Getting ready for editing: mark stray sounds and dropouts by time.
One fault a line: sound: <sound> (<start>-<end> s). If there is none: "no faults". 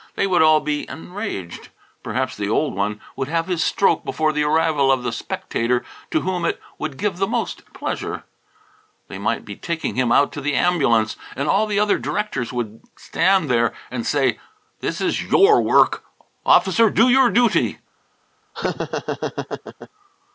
sound: laugh (18.5-19.9 s)